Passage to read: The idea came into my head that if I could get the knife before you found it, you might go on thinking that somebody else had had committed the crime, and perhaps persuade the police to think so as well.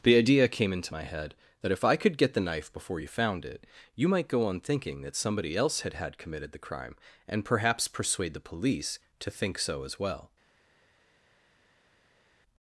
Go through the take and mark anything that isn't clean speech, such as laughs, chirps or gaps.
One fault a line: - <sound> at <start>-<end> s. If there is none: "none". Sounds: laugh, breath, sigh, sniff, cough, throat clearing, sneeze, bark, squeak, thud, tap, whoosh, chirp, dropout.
none